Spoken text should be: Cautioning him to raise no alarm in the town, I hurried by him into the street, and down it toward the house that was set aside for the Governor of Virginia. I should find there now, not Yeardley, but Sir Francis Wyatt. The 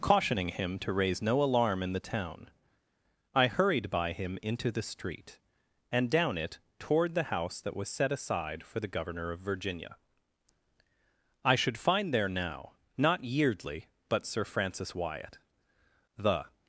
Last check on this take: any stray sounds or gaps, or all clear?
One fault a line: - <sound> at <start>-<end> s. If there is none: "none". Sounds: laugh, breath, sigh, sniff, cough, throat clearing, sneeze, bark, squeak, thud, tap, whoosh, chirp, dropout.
none